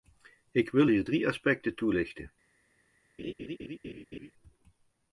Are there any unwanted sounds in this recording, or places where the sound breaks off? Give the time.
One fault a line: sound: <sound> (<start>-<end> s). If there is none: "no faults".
sound: laugh (3.2-4.3 s)